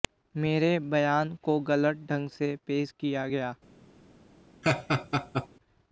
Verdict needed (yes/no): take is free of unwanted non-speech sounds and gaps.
no